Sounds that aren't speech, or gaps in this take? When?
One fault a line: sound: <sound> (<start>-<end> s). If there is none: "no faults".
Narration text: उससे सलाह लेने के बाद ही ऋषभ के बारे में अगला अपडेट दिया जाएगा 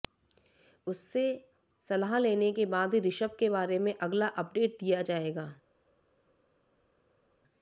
no faults